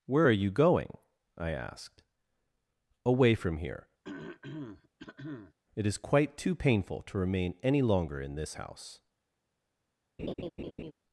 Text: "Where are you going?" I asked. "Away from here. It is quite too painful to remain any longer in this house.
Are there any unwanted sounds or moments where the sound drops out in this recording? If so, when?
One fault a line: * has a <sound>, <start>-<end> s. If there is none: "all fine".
* has a throat clearing, 4.0-5.5 s
* has a laugh, 10.2-10.9 s